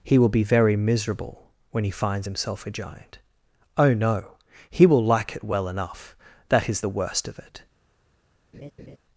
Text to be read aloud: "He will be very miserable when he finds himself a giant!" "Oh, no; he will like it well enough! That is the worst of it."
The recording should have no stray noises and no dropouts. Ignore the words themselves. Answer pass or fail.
fail